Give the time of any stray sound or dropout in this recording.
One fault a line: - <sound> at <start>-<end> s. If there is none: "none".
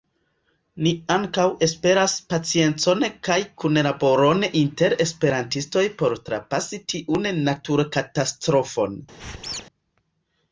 - squeak at 9.2-9.6 s